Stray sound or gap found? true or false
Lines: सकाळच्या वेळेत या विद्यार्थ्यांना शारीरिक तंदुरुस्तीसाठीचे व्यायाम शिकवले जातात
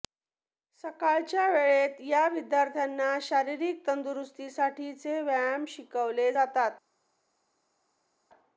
false